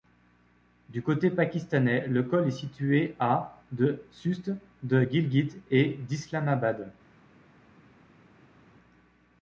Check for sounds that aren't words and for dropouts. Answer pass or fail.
pass